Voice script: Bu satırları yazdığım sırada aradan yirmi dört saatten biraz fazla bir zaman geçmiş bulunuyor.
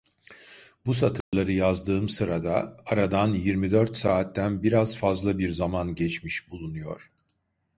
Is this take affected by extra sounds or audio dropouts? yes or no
yes